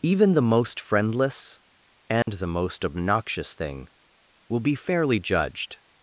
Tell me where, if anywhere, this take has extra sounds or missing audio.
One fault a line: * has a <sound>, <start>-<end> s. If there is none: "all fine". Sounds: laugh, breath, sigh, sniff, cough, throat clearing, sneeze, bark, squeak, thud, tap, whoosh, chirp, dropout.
* has a dropout, 2.2-2.3 s